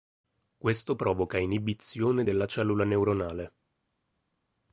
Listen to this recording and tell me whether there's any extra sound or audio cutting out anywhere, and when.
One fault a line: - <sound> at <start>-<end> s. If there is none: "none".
none